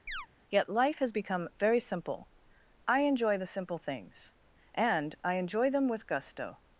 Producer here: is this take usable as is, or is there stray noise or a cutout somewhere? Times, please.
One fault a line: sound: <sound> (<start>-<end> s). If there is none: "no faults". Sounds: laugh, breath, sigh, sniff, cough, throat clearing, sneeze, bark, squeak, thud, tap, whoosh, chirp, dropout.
sound: chirp (0.1-0.3 s)